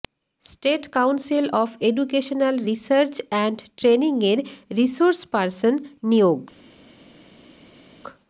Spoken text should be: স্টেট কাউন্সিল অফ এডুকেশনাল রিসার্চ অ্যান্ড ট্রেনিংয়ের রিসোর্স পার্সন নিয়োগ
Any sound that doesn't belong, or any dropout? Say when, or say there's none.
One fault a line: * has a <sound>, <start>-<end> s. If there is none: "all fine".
all fine